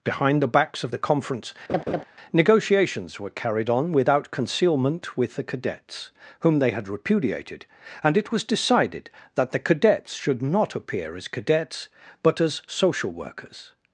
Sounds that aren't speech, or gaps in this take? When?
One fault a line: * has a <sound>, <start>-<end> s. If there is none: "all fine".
* has a laugh, 1.7-2.0 s